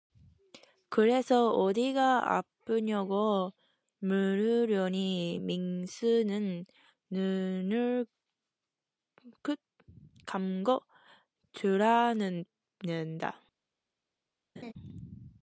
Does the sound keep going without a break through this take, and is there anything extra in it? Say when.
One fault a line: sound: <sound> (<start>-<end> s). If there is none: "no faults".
sound: laugh (14.6-14.7 s)